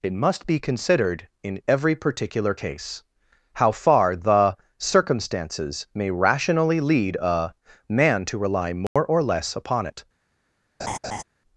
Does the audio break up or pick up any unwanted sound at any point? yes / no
yes